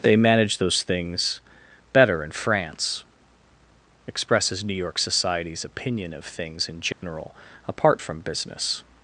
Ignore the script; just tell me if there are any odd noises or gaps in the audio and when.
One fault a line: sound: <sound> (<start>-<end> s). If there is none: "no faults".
sound: dropout (6.9-7.0 s)